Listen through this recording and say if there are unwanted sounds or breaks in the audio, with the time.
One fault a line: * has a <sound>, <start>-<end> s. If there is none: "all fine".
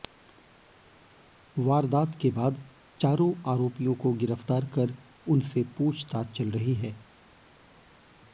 all fine